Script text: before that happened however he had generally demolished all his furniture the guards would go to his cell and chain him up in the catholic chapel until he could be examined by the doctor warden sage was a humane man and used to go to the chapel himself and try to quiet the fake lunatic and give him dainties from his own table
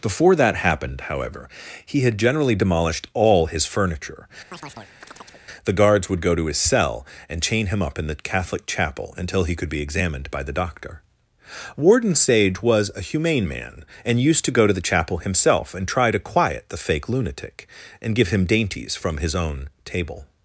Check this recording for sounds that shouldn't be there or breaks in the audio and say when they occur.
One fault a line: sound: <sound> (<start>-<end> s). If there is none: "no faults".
sound: chirp (4.5-5.4 s)